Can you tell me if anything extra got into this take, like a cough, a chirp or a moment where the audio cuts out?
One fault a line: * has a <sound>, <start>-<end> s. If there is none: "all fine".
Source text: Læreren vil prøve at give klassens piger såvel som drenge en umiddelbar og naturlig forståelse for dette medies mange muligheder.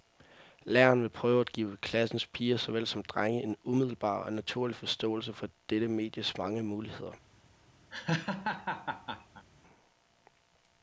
* has a laugh, 7.9-9.4 s